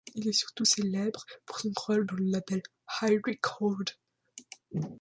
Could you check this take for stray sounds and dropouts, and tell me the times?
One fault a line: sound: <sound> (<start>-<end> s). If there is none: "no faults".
no faults